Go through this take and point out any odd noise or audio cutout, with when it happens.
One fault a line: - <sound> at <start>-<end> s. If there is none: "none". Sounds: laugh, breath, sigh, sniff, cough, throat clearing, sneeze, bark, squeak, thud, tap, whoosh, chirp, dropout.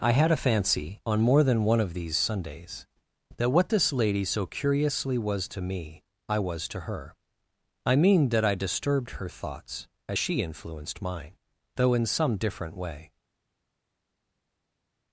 none